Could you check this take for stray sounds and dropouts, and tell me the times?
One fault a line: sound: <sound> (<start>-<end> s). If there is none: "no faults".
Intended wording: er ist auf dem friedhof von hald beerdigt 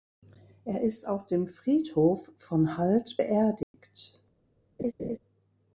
sound: dropout (3.6-3.7 s)
sound: laugh (4.8-5.2 s)